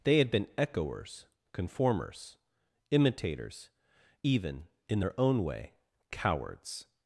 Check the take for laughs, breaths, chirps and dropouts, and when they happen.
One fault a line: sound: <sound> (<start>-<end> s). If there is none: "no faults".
no faults